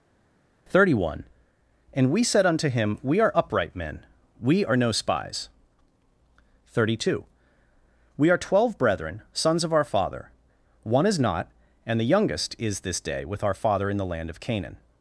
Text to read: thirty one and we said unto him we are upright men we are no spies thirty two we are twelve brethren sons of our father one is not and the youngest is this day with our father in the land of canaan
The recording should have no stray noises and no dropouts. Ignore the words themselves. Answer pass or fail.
pass